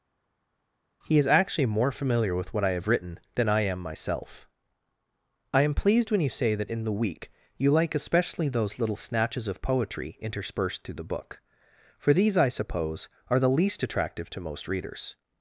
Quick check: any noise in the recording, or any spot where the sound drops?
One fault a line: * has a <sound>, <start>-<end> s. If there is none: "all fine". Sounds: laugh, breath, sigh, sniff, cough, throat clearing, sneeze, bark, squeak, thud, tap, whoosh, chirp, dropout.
all fine